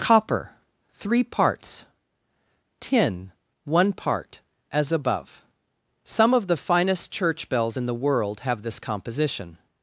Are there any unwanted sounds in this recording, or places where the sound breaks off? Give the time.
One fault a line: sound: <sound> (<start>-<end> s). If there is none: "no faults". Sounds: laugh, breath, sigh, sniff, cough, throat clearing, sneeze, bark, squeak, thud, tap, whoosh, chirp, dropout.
no faults